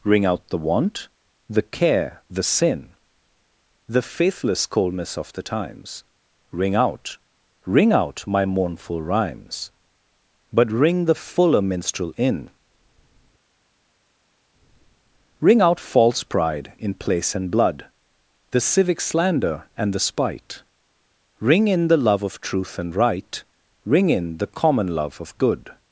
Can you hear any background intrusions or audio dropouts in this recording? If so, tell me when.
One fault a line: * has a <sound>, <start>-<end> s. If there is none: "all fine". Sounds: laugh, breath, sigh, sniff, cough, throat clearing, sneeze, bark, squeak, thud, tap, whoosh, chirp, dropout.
all fine